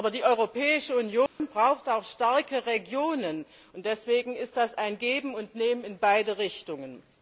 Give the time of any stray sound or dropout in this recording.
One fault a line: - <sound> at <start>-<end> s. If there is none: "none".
- dropout at 1.3-1.4 s